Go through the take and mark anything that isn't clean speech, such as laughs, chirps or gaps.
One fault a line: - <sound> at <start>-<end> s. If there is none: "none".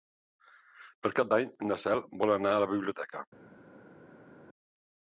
none